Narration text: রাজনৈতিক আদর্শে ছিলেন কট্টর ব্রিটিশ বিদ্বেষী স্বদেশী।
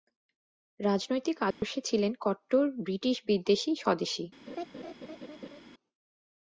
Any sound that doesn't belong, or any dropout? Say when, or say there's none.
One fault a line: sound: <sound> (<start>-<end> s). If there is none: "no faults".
sound: dropout (1.5-1.6 s)
sound: laugh (4.5-5.6 s)